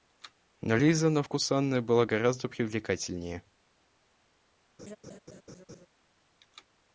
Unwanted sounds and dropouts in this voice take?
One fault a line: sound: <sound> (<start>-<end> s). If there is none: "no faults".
sound: laugh (4.8-5.9 s)